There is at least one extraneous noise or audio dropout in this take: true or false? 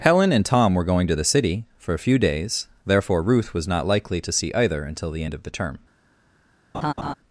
true